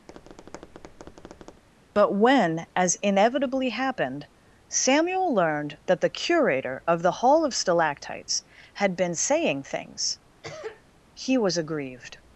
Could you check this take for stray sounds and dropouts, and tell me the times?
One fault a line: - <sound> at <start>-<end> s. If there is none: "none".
- tap at 0.1-1.6 s
- cough at 10.4-10.8 s